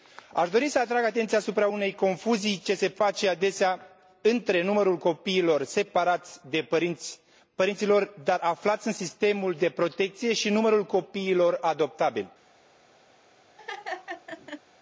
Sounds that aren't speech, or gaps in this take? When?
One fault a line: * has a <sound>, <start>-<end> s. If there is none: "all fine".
* has a laugh, 13.6-14.6 s